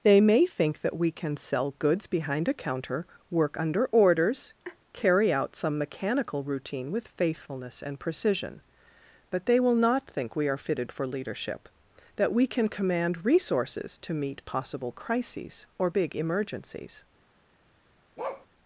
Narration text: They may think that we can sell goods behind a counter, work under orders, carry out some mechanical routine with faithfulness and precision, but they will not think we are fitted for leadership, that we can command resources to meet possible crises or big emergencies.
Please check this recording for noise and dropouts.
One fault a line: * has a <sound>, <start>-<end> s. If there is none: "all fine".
* has a laugh, 4.6-4.8 s
* has a bark, 18.2-18.5 s